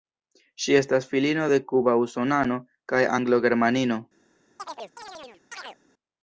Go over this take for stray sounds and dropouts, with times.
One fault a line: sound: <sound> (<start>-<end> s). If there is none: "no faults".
sound: chirp (4.6-5.8 s)